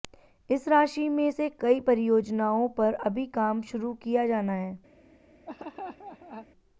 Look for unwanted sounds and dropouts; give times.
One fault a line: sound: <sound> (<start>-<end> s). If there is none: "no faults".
sound: laugh (5.5-6.5 s)